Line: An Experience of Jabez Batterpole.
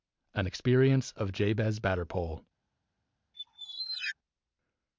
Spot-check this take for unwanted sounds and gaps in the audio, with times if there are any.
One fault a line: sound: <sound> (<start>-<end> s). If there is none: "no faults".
sound: squeak (3.3-4.2 s)